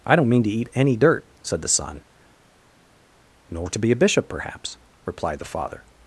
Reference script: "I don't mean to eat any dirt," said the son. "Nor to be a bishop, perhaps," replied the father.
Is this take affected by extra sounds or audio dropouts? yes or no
no